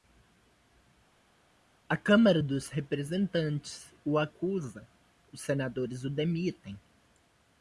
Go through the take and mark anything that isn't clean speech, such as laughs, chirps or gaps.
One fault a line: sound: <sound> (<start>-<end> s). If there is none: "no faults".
no faults